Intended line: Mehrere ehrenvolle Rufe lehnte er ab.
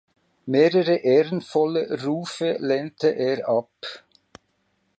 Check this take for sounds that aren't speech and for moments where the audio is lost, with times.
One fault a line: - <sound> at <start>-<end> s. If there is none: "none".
none